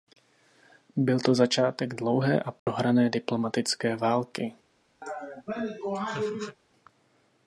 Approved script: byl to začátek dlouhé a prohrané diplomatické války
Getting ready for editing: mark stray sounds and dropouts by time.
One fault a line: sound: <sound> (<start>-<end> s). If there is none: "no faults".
sound: dropout (2.6-2.7 s)
sound: laugh (5.0-6.6 s)